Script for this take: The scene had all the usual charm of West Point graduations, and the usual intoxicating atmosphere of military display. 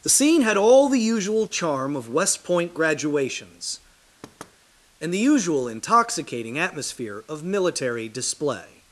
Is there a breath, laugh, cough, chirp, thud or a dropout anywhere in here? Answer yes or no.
yes